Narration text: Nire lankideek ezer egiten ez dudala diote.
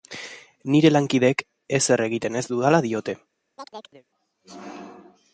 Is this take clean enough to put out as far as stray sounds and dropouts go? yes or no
no